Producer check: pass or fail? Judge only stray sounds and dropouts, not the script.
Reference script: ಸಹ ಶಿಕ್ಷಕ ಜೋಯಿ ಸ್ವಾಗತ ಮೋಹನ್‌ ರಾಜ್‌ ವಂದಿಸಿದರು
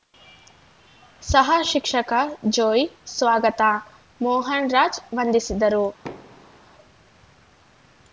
fail